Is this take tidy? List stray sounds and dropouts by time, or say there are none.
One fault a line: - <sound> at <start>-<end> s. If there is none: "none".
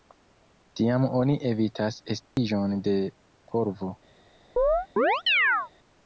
- dropout at 2.2-2.4 s
- chirp at 4.6-5.7 s